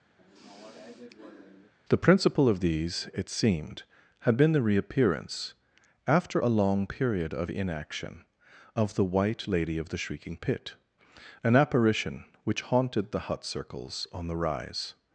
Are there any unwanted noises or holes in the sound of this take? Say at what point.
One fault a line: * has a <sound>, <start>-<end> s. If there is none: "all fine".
* has a sigh, 0.2-1.7 s